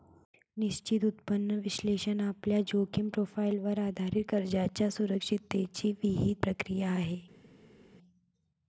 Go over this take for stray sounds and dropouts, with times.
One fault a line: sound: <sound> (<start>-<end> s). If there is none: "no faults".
no faults